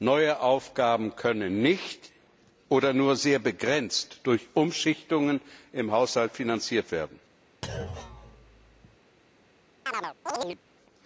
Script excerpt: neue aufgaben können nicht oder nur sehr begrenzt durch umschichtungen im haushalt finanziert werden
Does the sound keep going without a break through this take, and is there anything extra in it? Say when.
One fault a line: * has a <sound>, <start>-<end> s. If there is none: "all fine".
* has a thud, 7.6-9.0 s
* has a chirp, 9.9-10.6 s